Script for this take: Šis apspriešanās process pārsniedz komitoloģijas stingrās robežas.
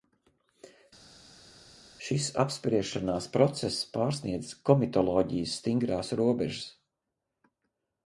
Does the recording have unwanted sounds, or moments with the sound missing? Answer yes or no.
no